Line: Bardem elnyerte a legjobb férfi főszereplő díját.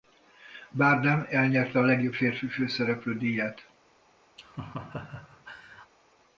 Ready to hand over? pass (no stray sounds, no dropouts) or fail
fail